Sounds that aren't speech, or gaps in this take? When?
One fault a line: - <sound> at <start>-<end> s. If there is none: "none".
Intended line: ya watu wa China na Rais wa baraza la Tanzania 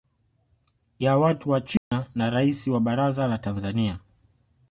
- dropout at 1.8-1.9 s